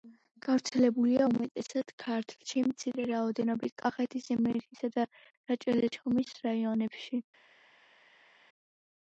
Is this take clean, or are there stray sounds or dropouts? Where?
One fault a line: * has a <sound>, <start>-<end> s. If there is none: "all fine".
all fine